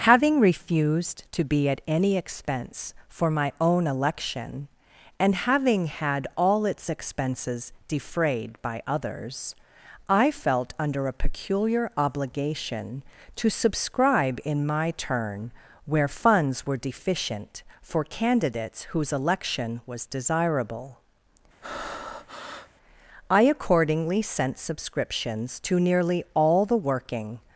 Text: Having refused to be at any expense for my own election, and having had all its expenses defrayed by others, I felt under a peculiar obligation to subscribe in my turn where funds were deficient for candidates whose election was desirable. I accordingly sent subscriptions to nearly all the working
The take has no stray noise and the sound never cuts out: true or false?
false